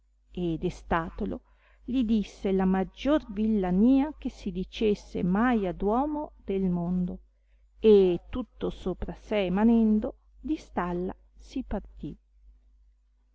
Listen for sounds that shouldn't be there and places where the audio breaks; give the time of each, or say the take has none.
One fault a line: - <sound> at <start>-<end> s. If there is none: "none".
none